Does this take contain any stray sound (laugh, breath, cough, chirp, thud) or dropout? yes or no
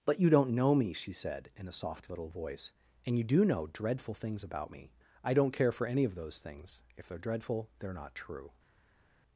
no